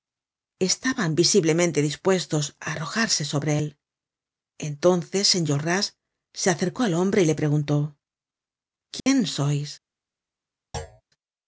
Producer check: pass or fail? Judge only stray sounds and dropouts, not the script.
fail